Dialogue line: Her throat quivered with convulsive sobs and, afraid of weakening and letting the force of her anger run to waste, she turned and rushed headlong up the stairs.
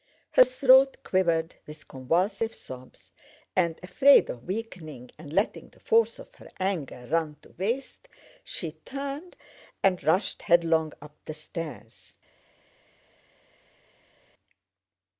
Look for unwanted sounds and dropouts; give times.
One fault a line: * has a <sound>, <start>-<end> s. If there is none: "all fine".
all fine